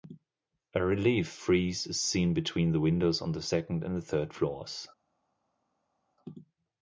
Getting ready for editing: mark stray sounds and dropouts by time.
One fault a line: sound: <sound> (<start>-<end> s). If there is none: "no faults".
no faults